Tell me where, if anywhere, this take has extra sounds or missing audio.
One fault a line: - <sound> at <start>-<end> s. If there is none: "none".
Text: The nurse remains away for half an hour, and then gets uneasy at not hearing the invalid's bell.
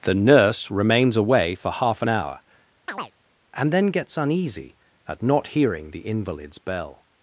- chirp at 2.9-3.1 s